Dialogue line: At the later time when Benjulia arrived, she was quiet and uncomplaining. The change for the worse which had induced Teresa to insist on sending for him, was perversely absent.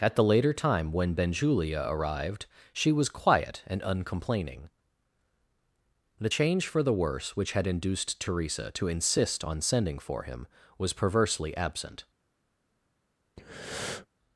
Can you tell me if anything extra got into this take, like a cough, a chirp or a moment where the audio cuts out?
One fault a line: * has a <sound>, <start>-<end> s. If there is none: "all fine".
* has a breath, 13.4-14.1 s